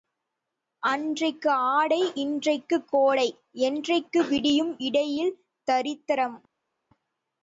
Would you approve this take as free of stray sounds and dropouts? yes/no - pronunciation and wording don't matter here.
yes